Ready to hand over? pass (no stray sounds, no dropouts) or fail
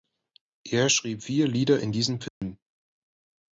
fail